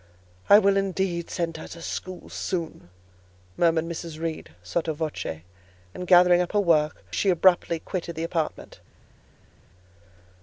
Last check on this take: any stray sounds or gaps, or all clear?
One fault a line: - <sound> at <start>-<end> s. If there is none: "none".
none